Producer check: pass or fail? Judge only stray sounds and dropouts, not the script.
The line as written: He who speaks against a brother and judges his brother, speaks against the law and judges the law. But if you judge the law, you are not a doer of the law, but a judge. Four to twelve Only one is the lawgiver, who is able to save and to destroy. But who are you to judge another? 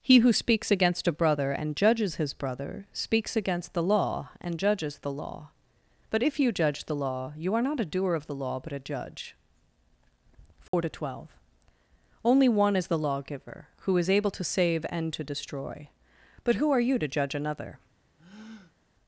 fail